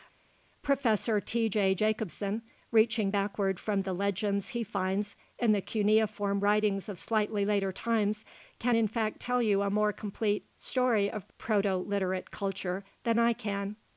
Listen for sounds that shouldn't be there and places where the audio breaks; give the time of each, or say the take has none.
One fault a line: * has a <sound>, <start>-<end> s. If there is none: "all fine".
all fine